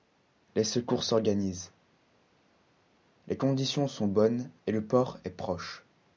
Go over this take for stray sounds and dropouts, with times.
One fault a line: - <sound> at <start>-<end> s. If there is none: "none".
none